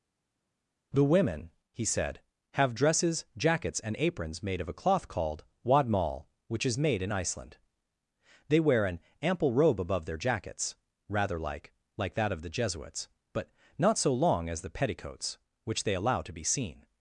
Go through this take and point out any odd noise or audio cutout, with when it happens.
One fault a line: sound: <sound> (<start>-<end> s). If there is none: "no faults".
no faults